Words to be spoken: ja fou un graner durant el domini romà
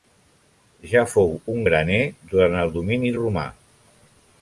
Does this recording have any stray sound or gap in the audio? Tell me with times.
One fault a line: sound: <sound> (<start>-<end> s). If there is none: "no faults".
no faults